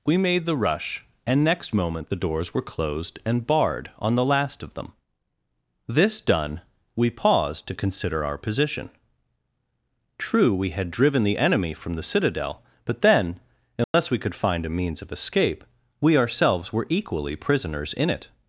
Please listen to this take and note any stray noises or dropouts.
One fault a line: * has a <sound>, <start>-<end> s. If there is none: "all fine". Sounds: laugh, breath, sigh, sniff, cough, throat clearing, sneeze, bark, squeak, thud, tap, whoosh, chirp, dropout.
* has a dropout, 13.8-13.9 s